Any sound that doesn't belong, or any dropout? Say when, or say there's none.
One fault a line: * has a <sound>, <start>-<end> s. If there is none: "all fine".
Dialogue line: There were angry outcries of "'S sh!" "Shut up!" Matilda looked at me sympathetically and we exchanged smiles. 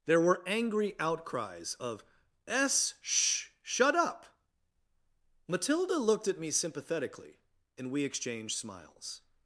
all fine